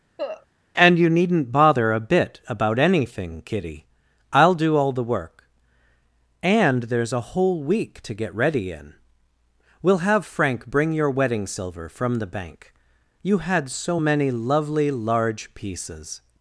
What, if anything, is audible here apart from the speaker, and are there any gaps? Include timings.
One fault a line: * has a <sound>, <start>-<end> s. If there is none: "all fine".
* has a cough, 0.2-0.5 s